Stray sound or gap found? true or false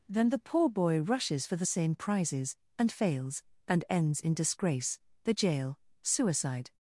false